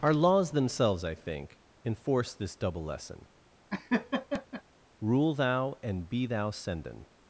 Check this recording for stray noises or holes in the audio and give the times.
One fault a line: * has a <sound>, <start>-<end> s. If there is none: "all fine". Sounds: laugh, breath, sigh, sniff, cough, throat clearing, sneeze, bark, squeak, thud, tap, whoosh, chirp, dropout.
* has a laugh, 3.7-4.6 s